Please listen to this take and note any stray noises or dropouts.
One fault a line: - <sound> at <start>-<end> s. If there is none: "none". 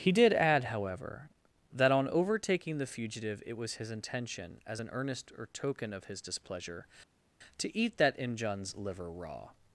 none